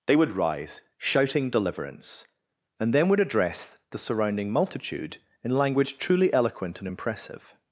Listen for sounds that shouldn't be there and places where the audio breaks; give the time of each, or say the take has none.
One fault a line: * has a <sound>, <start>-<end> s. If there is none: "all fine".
all fine